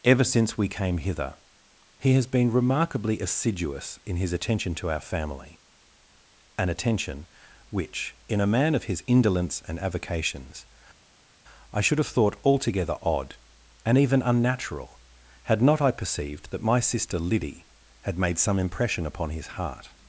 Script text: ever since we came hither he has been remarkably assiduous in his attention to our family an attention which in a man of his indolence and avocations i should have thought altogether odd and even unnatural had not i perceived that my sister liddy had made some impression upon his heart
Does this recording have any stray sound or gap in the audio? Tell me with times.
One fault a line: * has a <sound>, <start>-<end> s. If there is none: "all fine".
all fine